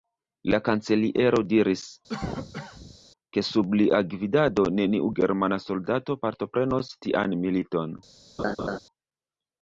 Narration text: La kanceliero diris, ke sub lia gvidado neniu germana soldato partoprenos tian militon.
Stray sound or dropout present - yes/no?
yes